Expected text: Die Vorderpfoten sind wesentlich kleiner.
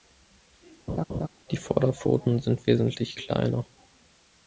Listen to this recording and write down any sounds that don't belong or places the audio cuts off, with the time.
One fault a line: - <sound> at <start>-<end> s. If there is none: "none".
- laugh at 0.9-1.3 s